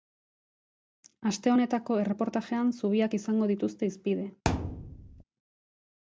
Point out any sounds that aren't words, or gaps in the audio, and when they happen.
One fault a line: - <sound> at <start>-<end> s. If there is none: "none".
- thud at 4.5-5.2 s